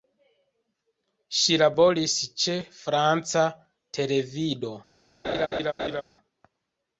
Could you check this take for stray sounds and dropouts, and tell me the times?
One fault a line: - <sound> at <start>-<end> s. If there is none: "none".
- laugh at 5.2-6.0 s